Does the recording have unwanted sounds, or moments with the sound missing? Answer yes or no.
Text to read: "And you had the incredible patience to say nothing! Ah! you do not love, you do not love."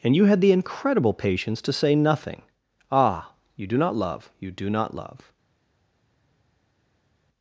no